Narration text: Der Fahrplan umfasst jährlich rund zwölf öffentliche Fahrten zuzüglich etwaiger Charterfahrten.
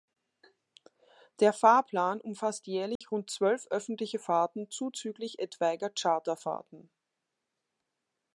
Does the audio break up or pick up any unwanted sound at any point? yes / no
yes